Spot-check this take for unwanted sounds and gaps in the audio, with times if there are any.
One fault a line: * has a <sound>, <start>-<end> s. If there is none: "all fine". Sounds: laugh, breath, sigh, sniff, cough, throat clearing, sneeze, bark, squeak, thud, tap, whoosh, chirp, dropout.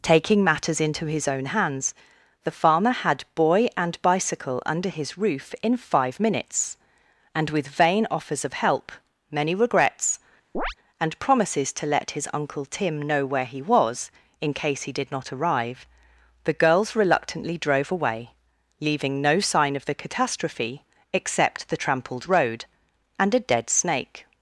* has a chirp, 10.5-10.7 s